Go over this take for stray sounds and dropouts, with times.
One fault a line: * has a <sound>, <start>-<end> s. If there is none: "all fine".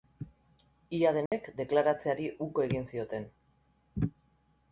* has a dropout, 1.3-1.3 s